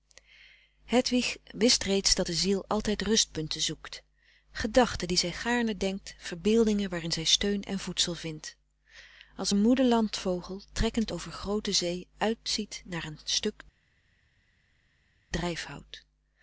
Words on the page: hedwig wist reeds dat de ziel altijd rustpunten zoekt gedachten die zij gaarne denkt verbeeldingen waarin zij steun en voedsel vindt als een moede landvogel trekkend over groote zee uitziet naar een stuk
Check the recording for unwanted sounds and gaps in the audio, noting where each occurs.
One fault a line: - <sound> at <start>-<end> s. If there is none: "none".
none